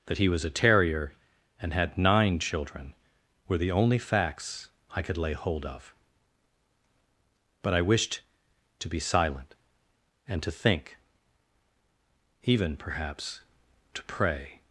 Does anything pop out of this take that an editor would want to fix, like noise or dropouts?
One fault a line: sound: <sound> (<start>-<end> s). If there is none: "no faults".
no faults